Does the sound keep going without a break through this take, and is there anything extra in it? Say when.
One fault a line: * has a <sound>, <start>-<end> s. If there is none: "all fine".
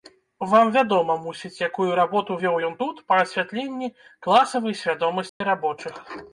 * has a dropout, 5.3-5.4 s